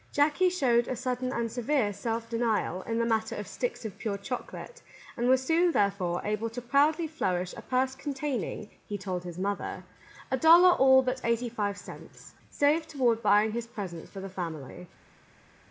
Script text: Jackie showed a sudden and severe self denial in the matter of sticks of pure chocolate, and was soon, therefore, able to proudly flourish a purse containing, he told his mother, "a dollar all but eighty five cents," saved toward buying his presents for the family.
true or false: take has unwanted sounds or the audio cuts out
false